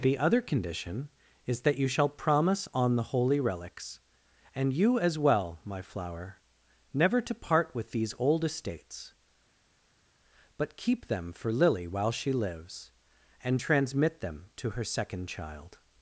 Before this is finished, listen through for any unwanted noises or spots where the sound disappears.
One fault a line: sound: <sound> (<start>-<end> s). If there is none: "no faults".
no faults